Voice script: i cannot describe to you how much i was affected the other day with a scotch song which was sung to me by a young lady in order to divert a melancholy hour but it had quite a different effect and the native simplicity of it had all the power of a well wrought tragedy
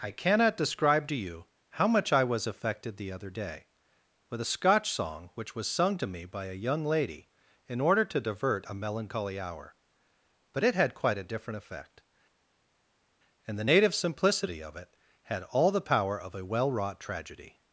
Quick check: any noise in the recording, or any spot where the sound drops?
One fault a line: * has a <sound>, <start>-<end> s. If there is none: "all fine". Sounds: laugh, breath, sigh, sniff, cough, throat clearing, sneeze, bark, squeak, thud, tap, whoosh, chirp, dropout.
all fine